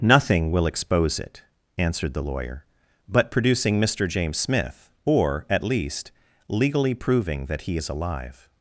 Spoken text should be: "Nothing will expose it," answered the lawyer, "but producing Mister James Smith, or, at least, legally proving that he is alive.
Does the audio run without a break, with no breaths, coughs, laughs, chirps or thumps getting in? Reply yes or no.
yes